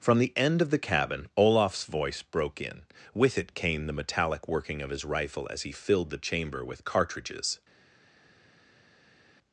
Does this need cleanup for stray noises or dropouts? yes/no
no